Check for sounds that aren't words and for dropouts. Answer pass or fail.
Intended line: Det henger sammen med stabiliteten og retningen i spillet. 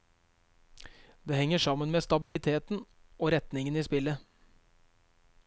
fail